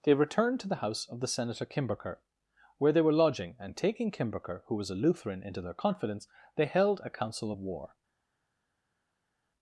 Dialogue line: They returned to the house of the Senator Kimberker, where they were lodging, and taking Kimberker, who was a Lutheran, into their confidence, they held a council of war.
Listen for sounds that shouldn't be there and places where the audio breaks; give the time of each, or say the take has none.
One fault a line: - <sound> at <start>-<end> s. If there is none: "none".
none